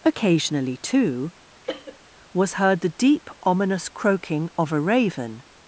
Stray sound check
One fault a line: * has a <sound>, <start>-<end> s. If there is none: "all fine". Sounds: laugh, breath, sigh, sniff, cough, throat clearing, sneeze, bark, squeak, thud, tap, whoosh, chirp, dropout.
* has a cough, 1.6-2.0 s